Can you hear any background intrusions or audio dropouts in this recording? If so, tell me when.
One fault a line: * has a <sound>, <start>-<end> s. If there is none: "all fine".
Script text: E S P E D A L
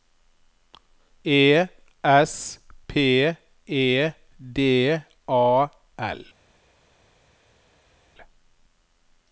all fine